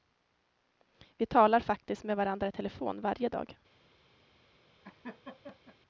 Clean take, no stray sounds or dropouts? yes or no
no